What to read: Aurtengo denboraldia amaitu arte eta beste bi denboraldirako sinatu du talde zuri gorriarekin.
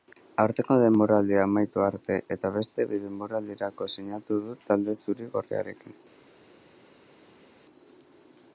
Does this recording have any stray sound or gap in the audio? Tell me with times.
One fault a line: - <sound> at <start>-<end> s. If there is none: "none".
none